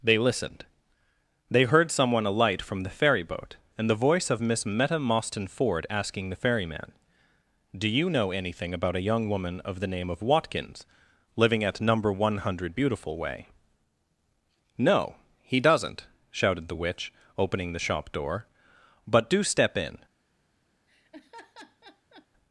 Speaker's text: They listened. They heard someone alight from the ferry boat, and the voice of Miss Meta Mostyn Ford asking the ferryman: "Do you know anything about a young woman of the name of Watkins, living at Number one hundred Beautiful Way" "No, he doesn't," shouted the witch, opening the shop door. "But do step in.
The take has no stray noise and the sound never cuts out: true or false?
false